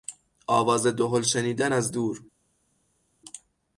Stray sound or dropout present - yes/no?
no